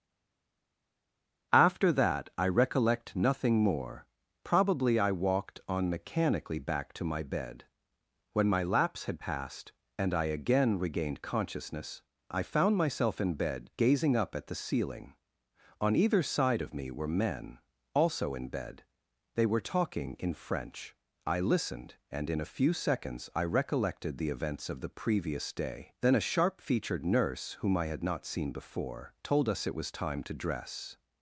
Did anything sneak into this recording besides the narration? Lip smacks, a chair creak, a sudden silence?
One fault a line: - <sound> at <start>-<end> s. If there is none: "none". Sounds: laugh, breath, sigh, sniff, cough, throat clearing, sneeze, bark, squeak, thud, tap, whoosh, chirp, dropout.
none